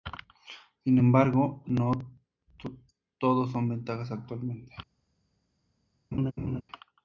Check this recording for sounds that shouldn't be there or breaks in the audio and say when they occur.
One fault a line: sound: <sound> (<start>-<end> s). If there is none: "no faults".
sound: laugh (6.1-6.6 s)